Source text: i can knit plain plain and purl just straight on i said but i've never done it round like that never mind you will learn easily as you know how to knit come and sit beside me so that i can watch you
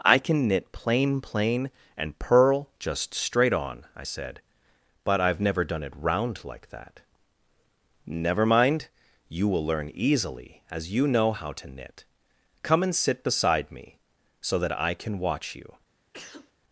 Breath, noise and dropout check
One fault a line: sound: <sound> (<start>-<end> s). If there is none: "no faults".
sound: sneeze (16.1-16.5 s)